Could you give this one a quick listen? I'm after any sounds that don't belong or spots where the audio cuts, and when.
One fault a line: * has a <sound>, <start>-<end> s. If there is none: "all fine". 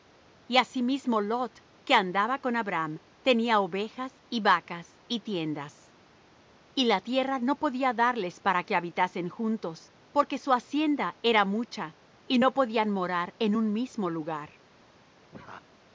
* has a laugh, 15.3-15.7 s